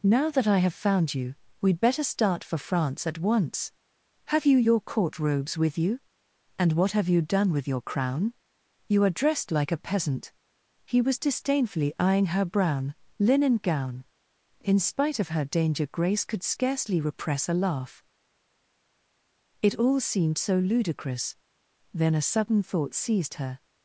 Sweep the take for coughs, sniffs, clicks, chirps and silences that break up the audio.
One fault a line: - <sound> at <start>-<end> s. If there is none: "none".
none